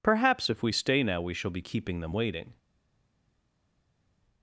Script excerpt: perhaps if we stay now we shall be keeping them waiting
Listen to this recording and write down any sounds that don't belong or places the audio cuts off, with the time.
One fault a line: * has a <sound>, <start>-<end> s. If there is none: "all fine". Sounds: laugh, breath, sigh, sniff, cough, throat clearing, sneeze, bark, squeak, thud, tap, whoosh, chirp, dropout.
all fine